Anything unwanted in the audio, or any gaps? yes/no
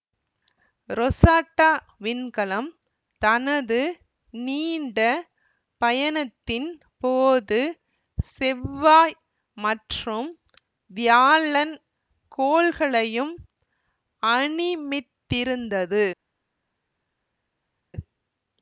no